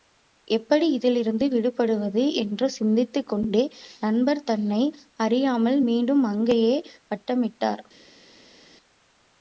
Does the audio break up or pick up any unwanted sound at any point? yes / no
no